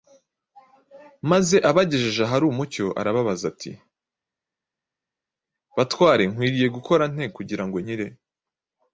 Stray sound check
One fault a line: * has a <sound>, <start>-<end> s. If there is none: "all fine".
all fine